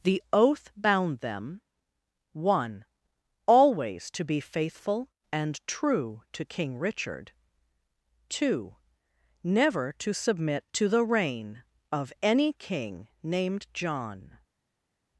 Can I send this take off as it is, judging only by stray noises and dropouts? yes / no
yes